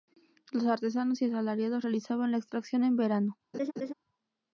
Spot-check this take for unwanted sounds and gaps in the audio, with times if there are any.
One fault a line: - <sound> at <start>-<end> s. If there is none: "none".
- laugh at 3.5-3.9 s